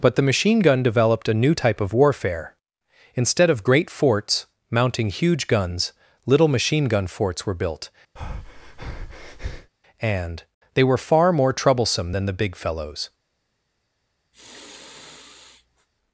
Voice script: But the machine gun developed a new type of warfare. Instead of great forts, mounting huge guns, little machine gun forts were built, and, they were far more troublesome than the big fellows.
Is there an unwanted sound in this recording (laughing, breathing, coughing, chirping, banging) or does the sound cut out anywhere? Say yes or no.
yes